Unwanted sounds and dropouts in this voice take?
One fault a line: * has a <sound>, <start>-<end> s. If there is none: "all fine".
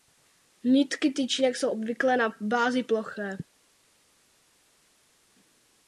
all fine